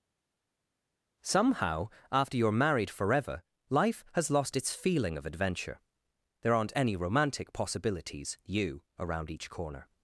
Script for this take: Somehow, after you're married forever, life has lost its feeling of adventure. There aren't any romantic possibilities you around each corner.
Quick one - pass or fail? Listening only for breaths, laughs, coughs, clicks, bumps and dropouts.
pass